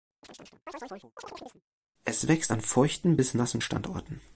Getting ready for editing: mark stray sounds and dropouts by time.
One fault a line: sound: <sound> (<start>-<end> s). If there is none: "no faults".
sound: chirp (0.2-1.6 s)